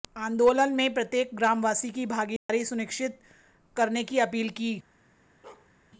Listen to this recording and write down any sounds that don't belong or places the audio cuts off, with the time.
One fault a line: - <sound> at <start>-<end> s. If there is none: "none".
- dropout at 2.4-2.5 s
- bark at 5.4-5.7 s